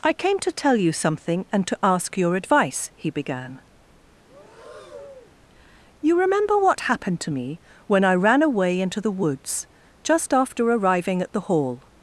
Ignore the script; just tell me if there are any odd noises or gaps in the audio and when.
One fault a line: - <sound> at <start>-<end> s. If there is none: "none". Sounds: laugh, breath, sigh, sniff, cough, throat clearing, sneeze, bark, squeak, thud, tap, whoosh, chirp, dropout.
- breath at 4.2-5.4 s